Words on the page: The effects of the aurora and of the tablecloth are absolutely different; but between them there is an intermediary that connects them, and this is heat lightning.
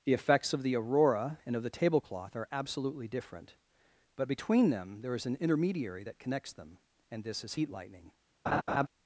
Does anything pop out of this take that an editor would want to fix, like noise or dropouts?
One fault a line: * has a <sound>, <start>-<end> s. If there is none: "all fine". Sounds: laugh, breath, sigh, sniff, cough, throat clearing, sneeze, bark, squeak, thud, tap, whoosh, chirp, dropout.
* has a laugh, 8.5-8.9 s